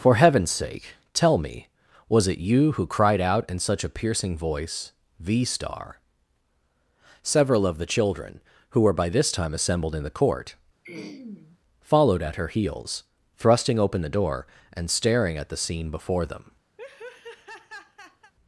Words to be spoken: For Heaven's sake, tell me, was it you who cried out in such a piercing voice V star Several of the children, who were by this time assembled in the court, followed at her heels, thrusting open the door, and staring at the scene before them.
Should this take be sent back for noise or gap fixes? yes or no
yes